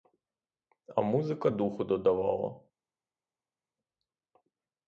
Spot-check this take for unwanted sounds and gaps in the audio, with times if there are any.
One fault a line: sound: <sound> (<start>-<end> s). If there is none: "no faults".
no faults